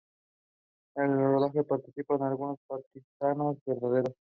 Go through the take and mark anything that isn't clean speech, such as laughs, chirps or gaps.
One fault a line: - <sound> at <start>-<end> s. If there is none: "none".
none